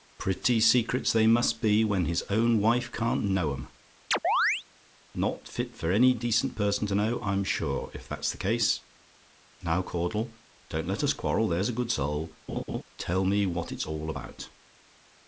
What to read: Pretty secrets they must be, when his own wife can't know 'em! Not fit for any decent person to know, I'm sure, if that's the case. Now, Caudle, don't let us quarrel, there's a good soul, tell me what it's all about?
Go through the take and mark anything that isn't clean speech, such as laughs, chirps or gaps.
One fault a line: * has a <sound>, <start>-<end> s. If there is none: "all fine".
* has a chirp, 4.1-4.6 s
* has a laugh, 12.5-12.8 s